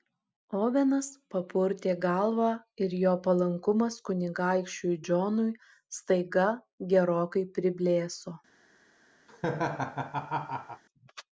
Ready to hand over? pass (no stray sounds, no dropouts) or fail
fail